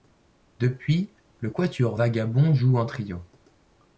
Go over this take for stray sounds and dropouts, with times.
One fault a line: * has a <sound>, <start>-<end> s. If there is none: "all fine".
all fine